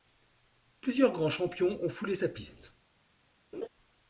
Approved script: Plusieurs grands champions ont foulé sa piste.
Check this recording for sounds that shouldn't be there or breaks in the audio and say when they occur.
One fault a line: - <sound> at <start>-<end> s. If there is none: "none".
- laugh at 3.5-3.7 s